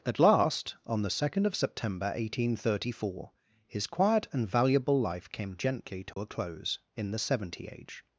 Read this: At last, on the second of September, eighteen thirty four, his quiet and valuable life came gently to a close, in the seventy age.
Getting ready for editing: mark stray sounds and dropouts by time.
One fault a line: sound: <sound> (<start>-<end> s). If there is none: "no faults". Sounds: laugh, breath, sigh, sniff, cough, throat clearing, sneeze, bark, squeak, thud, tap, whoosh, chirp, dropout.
sound: dropout (6.1-6.2 s)